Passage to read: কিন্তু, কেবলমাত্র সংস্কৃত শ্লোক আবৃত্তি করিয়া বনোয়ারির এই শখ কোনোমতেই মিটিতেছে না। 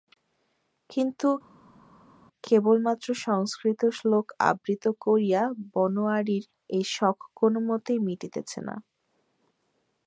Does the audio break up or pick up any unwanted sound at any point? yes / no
no